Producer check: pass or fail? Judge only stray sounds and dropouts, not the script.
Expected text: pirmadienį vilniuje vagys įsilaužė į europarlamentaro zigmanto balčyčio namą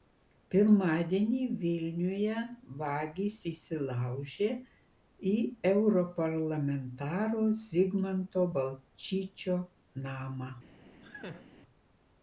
fail